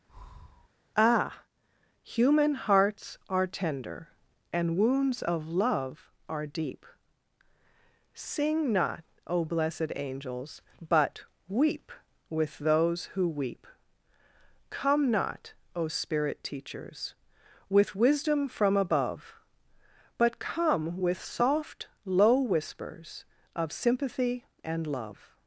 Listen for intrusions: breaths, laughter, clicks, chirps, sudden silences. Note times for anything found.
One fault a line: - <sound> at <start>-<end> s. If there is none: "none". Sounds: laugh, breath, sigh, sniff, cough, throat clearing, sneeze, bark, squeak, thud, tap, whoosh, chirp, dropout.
- breath at 0.1-0.7 s